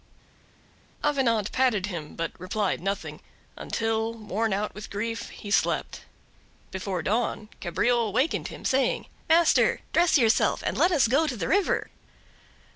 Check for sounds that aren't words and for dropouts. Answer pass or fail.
pass